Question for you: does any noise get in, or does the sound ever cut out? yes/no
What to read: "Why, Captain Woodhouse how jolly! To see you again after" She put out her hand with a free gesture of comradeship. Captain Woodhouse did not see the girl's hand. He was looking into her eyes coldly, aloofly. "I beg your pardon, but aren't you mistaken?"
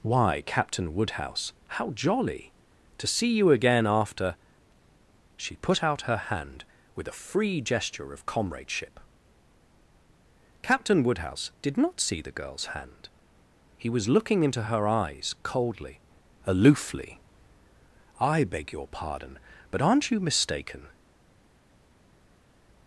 no